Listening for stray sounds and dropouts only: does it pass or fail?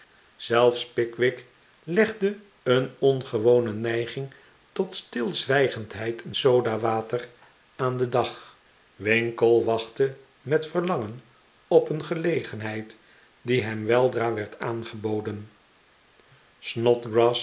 pass